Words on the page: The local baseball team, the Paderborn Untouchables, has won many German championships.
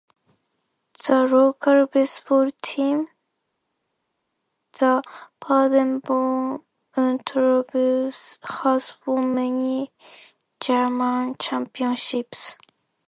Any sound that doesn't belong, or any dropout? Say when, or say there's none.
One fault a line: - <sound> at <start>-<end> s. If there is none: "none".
none